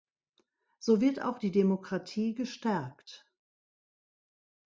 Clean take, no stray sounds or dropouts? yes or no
yes